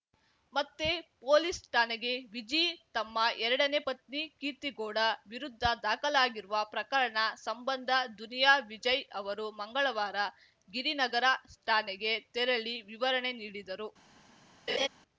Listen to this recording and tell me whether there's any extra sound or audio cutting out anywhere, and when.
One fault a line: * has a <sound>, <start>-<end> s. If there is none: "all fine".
* has a laugh, 14.7-14.9 s